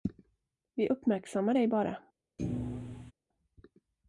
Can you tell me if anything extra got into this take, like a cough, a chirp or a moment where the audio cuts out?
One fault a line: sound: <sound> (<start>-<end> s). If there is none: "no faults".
sound: thud (2.4-3.1 s)